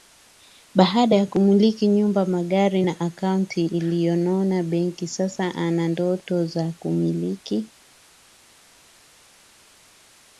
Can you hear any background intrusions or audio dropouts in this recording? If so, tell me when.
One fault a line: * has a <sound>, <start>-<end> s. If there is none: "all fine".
all fine